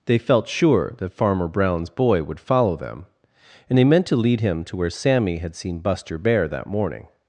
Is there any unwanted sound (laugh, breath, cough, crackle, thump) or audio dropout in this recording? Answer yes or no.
no